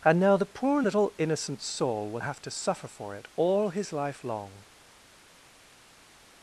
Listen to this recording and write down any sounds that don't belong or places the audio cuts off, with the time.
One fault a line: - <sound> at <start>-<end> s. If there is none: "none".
none